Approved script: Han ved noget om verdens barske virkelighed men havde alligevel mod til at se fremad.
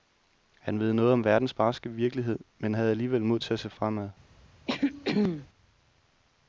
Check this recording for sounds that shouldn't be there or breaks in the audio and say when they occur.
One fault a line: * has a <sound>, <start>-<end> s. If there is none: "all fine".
* has a throat clearing, 4.7-5.5 s